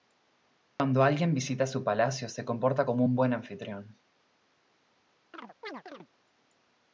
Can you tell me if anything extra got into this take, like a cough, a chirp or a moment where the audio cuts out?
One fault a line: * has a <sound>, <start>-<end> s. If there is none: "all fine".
* has a dropout, 0.7-0.8 s
* has a chirp, 5.3-6.1 s